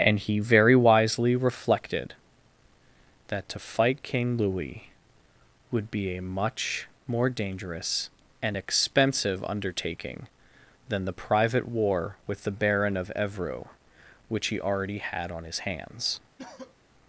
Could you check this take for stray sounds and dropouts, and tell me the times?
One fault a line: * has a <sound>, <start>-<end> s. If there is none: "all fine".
* has a cough, 16.4-16.8 s